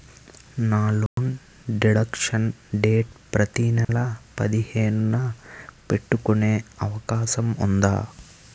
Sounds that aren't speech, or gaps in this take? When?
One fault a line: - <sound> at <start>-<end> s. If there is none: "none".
- dropout at 1.1-1.2 s
- dropout at 3.8-3.9 s